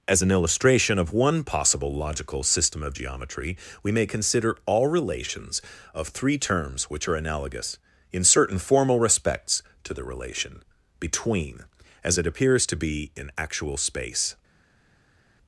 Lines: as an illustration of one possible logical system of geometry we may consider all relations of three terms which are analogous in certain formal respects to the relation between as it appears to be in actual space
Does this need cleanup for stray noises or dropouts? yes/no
no